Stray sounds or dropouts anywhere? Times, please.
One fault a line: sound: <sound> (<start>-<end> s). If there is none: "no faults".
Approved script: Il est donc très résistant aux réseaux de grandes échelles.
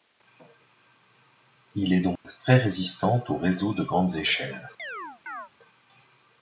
sound: dropout (2.2-2.2 s)
sound: chirp (4.8-5.5 s)